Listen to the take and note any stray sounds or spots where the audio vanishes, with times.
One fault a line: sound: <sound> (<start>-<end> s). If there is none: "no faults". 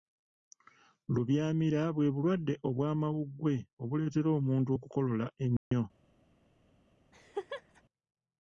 sound: dropout (5.6-5.7 s)
sound: laugh (7.1-7.8 s)